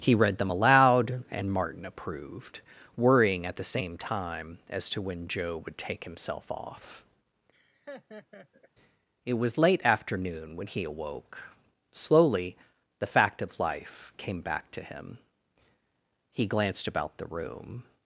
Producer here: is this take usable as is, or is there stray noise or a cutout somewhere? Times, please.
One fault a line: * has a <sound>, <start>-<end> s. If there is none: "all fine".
* has a laugh, 7.5-8.7 s